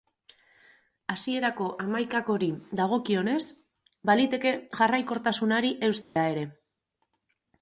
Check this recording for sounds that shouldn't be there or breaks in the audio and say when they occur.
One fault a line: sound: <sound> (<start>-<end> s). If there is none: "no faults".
sound: dropout (6.0-6.2 s)